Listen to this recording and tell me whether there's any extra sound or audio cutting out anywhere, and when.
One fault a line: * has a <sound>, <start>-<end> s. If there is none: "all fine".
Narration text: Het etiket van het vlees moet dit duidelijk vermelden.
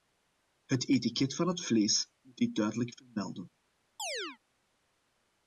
* has a chirp, 4.0-4.4 s